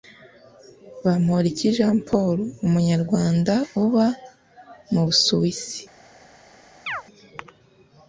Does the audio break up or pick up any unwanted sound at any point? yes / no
yes